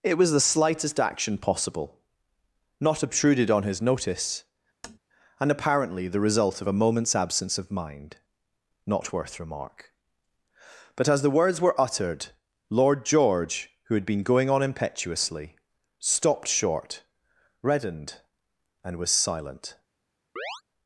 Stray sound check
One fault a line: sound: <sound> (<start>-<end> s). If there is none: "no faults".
sound: tap (4.8-5.0 s)
sound: chirp (20.4-20.6 s)